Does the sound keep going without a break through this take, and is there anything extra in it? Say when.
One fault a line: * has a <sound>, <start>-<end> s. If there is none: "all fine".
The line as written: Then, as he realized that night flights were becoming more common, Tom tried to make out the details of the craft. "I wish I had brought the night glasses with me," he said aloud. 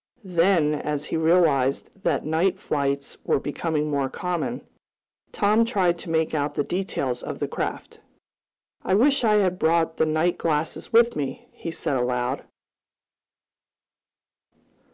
all fine